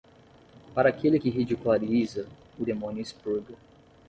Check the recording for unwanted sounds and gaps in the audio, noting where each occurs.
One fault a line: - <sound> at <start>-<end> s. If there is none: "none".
none